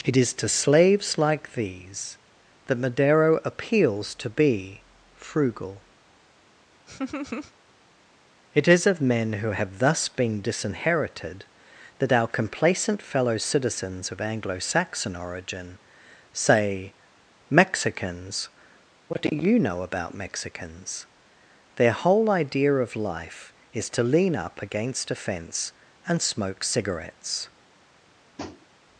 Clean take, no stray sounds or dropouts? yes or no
no